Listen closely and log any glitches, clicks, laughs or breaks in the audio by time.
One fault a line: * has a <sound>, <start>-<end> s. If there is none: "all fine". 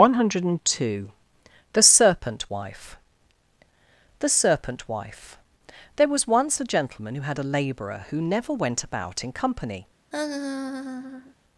* has a laugh, 10.1-11.3 s